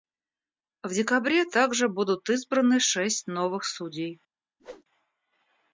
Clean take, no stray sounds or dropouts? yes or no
no